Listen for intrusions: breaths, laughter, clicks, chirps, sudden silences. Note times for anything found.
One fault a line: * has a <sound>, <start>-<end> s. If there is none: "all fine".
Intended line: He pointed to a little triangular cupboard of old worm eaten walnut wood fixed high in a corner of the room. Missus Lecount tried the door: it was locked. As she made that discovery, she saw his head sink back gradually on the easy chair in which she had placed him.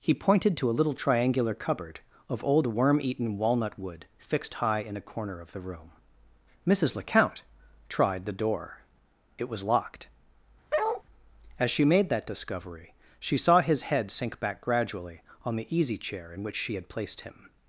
* has a bark, 10.7-11.0 s